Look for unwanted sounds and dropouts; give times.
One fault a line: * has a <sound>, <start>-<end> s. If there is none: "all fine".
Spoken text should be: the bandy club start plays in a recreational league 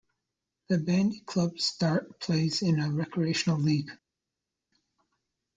all fine